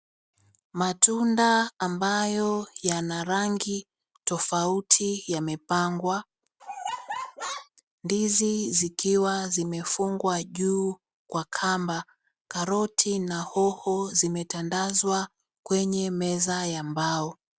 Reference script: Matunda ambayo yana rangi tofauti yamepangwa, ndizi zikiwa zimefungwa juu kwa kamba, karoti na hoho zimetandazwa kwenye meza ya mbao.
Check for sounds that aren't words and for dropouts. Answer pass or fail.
fail